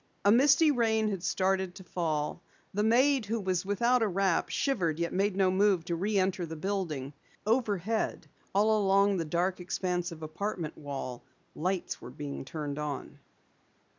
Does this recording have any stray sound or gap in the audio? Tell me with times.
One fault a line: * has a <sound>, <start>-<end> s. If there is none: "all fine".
all fine